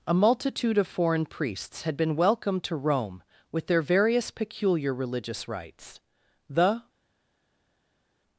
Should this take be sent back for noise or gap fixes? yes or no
no